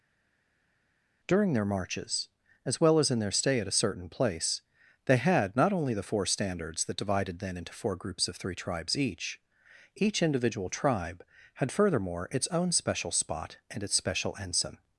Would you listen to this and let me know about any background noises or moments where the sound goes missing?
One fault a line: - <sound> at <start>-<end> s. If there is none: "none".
none